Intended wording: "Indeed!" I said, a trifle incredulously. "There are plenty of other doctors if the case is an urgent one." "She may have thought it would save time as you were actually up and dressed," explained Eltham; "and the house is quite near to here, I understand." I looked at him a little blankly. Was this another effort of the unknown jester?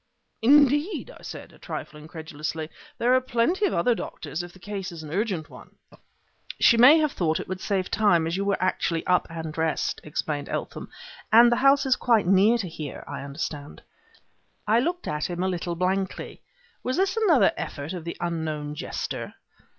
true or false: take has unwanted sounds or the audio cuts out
false